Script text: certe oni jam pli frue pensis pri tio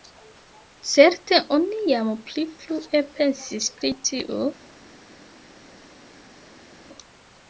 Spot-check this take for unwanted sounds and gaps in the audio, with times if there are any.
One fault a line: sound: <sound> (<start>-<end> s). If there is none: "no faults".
no faults